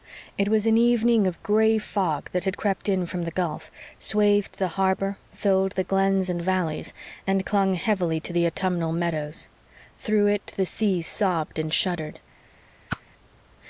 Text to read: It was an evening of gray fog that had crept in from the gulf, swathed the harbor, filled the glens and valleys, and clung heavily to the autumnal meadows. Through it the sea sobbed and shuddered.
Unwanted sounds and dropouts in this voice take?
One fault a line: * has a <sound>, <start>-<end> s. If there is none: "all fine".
* has a whoosh, 12.9-13.0 s